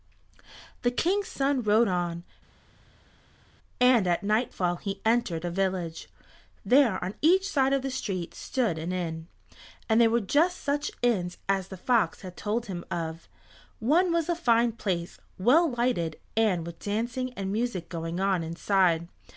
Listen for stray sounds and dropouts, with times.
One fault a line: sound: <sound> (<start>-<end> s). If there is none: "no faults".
no faults